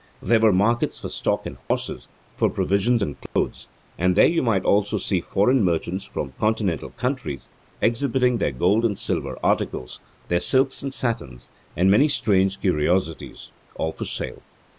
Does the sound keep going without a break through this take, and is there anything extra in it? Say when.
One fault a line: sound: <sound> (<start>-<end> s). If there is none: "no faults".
sound: dropout (1.6-1.7 s)
sound: dropout (3.3-3.4 s)